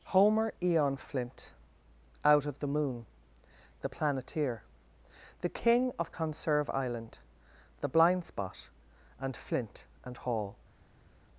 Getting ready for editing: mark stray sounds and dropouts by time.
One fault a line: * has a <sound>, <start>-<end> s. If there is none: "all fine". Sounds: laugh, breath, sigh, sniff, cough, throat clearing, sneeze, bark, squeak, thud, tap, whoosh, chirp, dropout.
all fine